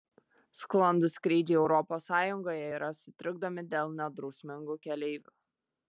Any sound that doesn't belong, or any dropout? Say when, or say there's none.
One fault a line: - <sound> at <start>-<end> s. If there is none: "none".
none